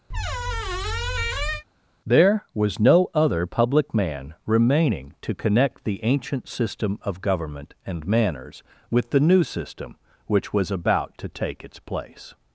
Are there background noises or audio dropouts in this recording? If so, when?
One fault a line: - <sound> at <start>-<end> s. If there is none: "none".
- squeak at 0.1-1.6 s